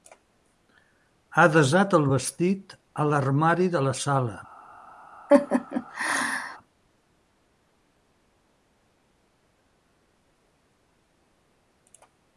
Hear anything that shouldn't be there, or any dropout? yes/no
yes